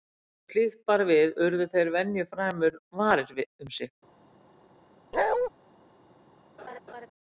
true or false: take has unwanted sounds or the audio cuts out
true